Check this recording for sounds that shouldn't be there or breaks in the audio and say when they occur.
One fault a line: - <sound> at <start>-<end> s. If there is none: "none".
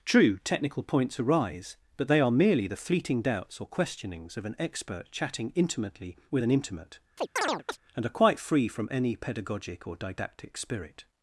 - chirp at 7.2-7.8 s